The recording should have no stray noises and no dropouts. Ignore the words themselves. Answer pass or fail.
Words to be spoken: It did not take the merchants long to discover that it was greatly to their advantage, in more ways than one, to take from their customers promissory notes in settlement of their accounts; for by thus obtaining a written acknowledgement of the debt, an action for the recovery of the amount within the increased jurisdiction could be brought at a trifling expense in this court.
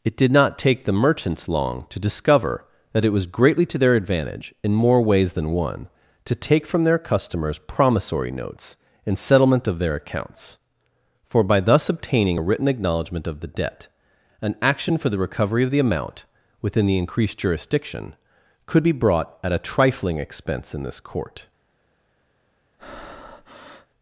fail